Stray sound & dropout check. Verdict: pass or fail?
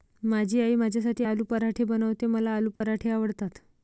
fail